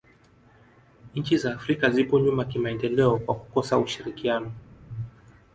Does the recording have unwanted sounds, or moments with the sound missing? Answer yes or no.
no